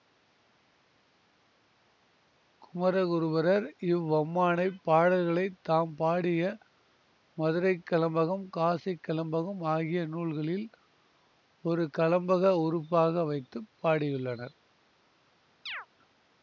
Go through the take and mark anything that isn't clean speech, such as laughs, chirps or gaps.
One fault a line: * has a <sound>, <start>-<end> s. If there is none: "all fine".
* has a chirp, 15.7-15.9 s